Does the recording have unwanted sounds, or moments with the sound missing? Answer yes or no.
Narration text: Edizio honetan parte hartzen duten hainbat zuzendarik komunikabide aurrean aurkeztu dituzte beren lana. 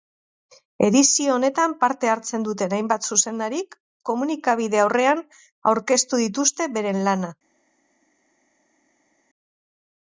no